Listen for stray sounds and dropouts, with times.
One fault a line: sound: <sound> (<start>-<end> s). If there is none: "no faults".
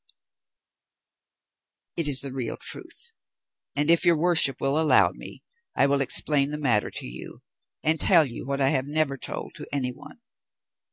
no faults